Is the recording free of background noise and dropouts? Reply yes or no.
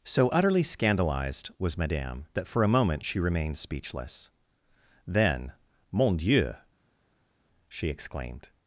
yes